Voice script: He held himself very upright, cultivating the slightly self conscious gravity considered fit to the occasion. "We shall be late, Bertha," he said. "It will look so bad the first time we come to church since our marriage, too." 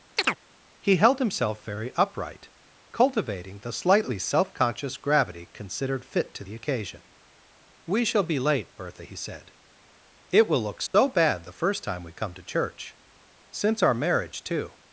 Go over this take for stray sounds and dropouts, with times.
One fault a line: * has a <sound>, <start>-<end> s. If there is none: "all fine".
* has a chirp, 0.2-0.4 s
* has a dropout, 10.9-10.9 s